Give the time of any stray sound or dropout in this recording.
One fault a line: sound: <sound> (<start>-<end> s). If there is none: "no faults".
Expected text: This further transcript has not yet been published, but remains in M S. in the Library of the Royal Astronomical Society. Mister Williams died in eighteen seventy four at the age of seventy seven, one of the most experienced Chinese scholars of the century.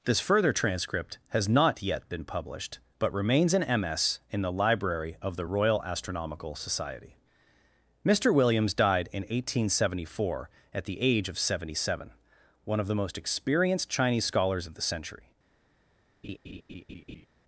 sound: laugh (16.2-17.3 s)